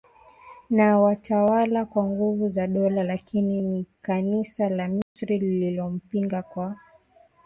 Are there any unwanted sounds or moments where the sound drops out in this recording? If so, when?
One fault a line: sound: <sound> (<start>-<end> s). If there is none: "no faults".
sound: dropout (5.0-5.2 s)